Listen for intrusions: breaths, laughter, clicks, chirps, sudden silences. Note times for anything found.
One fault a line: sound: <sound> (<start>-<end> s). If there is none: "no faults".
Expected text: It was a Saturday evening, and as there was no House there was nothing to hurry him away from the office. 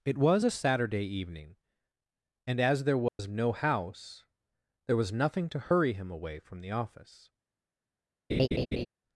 sound: dropout (3.1-3.2 s)
sound: laugh (8.3-8.9 s)